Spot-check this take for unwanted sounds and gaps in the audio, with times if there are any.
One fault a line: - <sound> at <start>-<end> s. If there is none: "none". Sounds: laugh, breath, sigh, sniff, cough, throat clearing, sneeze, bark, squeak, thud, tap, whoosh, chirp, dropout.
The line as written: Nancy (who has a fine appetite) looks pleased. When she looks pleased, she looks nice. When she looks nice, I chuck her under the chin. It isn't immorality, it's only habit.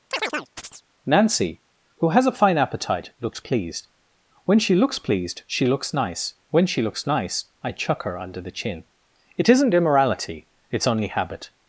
- chirp at 0.1-0.8 s